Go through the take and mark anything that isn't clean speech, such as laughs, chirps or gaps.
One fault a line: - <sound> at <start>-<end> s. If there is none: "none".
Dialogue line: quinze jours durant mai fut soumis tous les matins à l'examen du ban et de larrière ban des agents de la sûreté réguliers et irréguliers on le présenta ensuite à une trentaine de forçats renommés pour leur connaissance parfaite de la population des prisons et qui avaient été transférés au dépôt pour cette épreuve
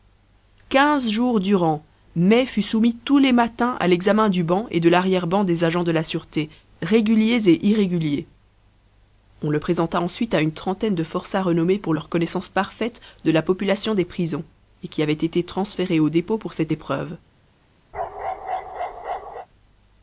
- bark at 17.9-19.5 s